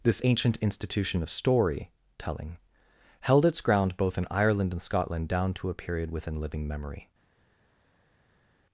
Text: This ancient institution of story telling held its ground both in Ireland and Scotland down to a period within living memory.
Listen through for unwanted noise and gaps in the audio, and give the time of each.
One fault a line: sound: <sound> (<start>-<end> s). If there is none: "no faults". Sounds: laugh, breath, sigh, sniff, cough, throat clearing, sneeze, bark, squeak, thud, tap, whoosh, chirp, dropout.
no faults